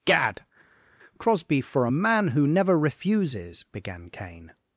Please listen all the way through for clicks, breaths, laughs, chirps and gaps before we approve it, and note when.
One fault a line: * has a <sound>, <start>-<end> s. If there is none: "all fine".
all fine